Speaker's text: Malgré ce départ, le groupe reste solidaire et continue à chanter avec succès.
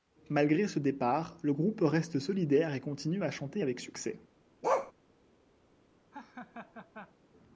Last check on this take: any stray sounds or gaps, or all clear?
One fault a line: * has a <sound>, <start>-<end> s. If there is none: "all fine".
* has a bark, 4.6-4.9 s
* has a laugh, 6.1-7.2 s